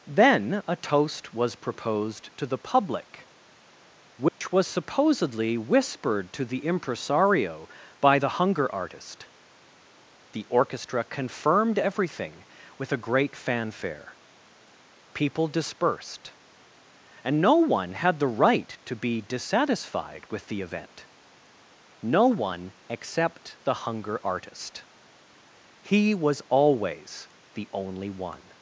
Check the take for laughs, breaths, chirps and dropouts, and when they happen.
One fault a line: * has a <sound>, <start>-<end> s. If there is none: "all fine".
* has a dropout, 4.3-4.4 s